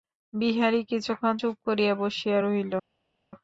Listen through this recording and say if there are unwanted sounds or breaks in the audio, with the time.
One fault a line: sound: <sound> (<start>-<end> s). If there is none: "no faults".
no faults